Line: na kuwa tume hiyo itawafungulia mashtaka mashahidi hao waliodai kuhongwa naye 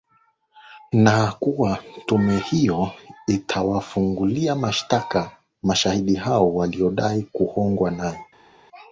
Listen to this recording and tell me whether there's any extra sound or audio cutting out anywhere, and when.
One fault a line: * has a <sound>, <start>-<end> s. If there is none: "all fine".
all fine